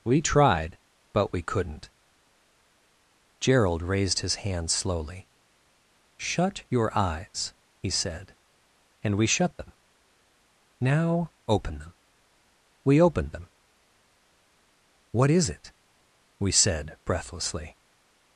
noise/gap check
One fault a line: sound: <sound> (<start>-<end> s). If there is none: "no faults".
no faults